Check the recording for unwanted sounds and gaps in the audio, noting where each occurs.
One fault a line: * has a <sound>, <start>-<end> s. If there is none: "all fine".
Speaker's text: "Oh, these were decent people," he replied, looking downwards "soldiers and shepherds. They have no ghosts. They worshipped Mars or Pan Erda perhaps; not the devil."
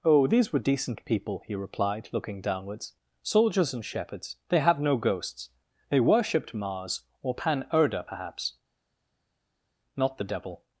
all fine